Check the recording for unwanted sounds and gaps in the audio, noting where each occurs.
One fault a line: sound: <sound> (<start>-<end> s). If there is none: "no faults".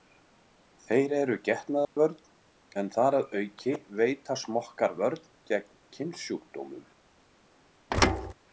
sound: dropout (1.8-2.0 s)
sound: thud (7.9-8.3 s)